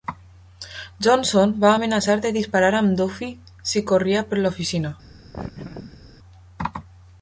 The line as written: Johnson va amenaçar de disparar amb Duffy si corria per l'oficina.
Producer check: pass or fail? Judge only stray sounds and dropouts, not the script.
fail